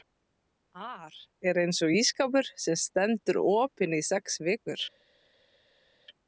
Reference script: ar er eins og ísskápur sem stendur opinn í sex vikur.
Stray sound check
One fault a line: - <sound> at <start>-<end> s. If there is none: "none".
none